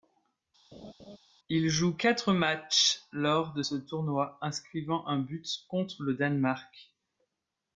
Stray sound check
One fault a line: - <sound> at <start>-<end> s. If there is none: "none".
- laugh at 0.7-1.2 s